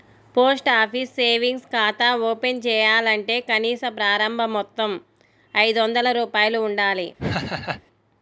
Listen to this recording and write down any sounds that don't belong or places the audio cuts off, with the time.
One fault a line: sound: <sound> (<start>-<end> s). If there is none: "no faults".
sound: laugh (7.2-7.8 s)